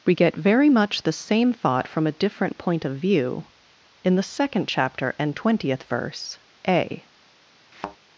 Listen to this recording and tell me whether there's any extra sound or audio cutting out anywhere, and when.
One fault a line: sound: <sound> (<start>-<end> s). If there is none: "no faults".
sound: thud (7.7-8.0 s)